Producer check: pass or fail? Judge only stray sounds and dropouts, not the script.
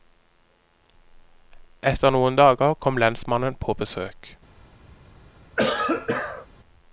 fail